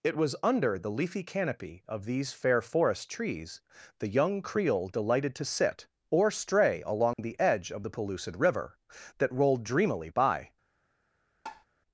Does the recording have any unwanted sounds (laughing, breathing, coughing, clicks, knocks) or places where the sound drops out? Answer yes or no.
yes